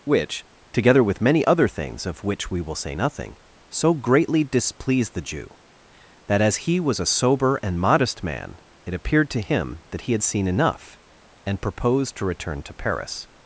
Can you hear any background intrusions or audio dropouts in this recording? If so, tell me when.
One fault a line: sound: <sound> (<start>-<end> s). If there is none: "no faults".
no faults